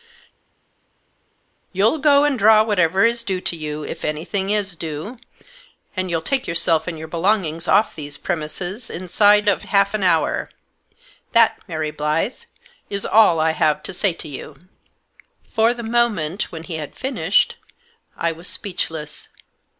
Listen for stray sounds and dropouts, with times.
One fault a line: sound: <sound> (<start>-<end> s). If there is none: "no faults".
no faults